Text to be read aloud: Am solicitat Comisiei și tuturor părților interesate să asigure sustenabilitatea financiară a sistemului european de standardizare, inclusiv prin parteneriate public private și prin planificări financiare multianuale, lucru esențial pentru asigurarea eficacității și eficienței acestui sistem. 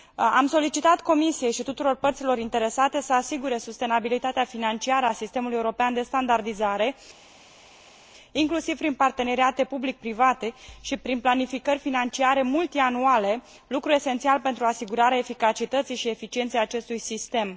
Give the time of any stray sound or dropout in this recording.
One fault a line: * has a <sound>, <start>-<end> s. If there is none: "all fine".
all fine